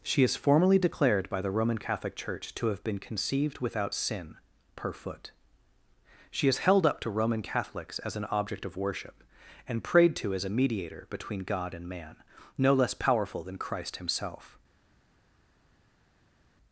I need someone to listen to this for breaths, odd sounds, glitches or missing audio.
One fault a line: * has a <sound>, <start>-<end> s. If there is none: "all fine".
all fine